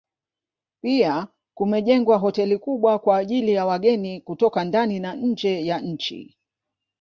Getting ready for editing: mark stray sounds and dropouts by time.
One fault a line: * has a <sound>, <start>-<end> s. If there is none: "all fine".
all fine